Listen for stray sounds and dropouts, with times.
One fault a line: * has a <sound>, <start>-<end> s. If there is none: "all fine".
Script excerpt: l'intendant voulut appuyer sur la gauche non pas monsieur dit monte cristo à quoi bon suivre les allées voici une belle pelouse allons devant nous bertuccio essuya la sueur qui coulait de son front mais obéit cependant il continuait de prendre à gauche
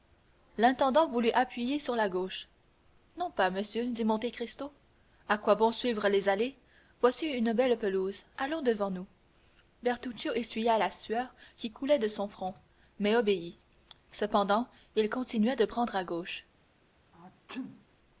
* has a sneeze, 17.1-17.9 s